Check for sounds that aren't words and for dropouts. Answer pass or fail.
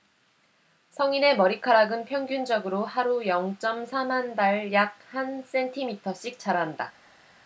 pass